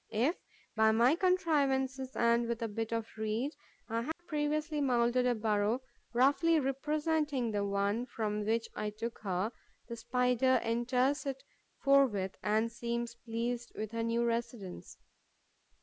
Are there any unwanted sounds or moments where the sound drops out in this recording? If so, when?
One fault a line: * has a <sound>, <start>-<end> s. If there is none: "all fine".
* has a dropout, 4.1-4.2 s